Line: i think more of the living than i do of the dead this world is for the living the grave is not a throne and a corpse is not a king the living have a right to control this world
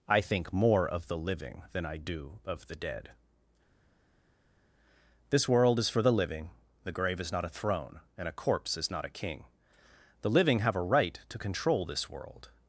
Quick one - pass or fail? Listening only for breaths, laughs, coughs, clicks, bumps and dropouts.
pass